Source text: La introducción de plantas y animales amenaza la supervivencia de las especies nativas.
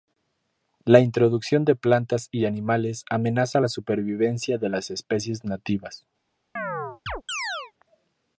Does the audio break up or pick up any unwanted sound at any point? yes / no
yes